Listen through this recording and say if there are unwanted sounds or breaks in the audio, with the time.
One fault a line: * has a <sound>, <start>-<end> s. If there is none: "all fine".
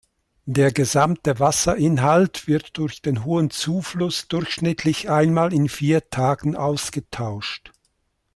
all fine